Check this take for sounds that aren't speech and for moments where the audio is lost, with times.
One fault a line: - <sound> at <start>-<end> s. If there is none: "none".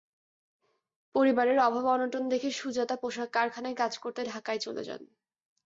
none